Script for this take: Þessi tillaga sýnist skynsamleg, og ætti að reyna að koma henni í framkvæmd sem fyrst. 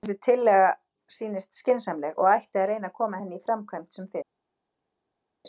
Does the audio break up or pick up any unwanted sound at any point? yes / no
no